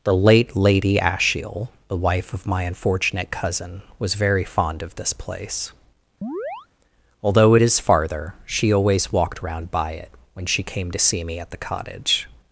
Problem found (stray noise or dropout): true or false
true